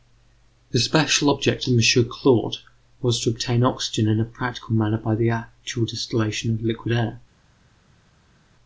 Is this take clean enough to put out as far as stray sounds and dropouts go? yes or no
yes